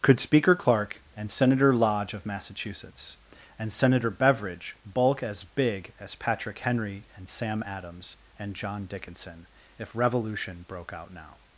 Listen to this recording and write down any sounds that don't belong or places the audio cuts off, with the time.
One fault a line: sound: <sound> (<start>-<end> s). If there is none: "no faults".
no faults